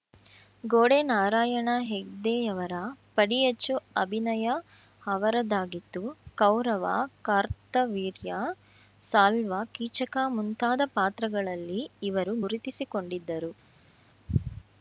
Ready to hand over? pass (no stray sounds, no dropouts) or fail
pass